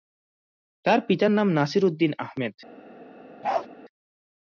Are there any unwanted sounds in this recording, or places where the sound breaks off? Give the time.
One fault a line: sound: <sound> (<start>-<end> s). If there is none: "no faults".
sound: bark (3.4-3.7 s)